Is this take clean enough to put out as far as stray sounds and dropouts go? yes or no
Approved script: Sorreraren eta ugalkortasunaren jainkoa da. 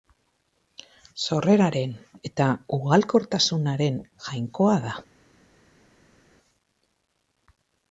yes